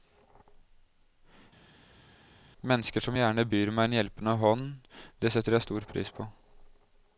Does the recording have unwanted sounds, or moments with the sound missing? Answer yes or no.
no